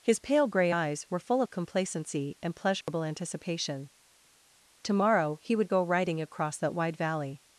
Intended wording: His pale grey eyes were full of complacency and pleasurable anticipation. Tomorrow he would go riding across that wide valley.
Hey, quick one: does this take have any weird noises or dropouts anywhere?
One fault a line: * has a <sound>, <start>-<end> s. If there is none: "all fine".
* has a dropout, 2.8-2.9 s